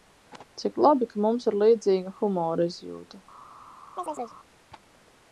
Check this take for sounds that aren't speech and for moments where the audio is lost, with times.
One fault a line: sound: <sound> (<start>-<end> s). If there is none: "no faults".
sound: chirp (4.0-4.4 s)